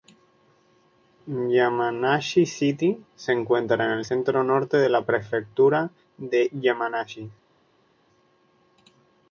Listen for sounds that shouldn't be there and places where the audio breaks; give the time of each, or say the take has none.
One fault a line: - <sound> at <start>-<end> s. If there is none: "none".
none